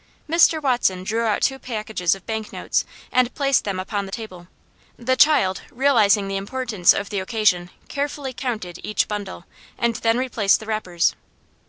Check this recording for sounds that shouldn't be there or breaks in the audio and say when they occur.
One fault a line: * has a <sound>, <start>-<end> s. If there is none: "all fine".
all fine